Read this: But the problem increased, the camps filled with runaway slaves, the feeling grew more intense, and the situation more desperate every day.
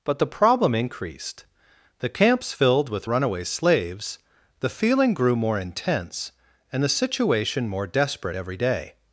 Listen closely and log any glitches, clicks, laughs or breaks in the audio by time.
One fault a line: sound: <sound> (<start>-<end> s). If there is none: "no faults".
no faults